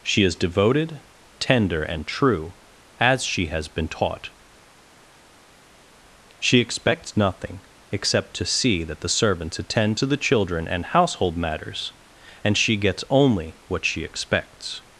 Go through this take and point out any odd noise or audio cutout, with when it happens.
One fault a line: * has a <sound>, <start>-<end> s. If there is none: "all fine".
all fine